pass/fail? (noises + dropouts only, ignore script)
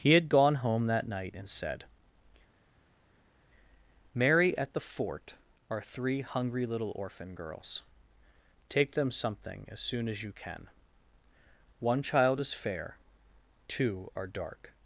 pass